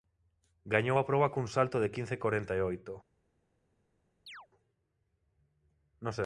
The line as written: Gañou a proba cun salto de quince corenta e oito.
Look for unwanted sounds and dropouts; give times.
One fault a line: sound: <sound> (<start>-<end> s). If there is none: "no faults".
sound: chirp (4.3-4.5 s)